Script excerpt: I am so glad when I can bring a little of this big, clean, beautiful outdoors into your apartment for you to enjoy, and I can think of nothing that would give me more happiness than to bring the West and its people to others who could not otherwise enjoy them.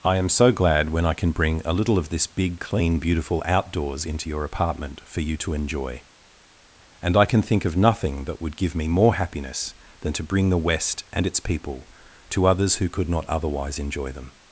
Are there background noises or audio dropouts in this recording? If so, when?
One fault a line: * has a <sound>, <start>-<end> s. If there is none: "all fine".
all fine